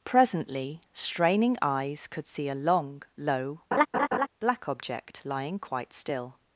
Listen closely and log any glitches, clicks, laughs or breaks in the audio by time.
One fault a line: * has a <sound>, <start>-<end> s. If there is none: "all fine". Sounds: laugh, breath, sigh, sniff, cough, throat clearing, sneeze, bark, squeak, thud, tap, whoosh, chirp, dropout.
* has a laugh, 3.7-4.3 s